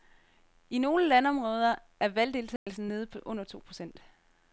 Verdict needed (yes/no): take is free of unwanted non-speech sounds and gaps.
no